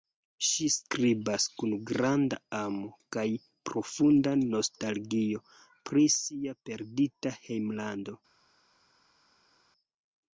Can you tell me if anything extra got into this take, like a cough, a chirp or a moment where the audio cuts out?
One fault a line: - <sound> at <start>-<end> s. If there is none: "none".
none